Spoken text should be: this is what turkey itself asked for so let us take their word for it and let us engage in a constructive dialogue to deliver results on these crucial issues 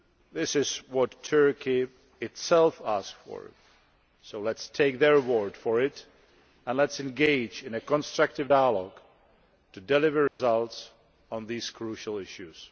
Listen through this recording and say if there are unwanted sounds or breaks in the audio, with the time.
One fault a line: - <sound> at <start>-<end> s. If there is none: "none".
- dropout at 10.3-10.4 s